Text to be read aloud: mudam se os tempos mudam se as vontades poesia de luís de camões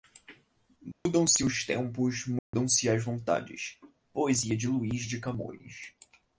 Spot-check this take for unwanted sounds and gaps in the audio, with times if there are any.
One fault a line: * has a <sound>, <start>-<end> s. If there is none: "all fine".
* has a dropout, 0.9-1.1 s
* has a dropout, 2.4-2.5 s